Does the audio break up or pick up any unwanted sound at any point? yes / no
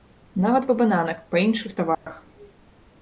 yes